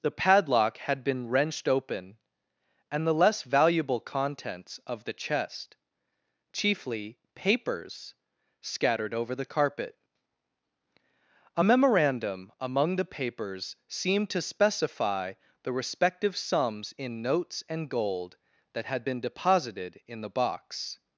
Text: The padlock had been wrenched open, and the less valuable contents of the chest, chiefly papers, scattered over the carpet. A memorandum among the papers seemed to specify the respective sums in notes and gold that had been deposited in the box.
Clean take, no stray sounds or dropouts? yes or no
yes